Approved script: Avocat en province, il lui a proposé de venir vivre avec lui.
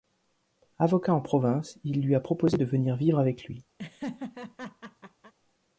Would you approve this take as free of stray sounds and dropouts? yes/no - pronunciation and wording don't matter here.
no